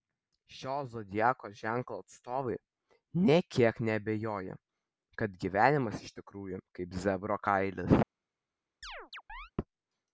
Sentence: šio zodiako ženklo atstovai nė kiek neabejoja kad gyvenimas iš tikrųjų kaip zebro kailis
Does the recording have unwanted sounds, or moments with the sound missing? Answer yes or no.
yes